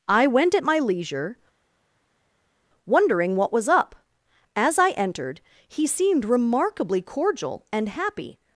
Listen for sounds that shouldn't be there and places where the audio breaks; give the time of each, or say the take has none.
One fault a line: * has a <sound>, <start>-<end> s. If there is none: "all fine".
all fine